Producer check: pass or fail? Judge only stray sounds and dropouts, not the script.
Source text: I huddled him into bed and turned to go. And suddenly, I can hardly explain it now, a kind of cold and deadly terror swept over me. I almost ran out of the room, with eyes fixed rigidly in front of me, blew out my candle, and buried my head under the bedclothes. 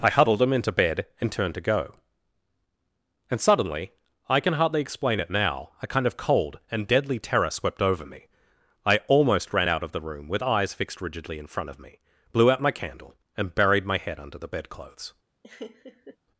fail